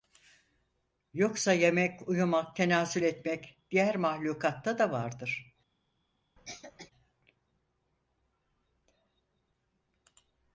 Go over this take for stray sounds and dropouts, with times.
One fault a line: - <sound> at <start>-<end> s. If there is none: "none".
- cough at 6.4-6.9 s